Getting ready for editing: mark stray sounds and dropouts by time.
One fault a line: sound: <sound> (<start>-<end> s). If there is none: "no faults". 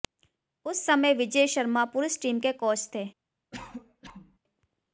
sound: cough (3.5-4.4 s)